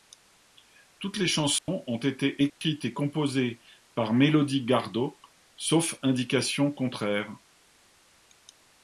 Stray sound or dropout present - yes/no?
yes